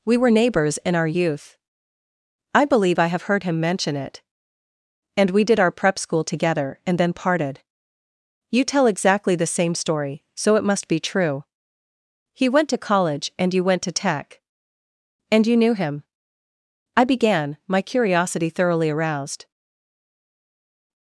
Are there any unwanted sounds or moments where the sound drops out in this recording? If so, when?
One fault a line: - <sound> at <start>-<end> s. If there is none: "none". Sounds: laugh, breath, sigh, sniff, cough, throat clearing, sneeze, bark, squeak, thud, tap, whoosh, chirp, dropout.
none